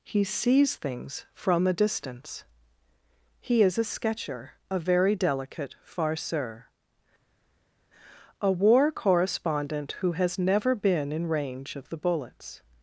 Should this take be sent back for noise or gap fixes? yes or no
no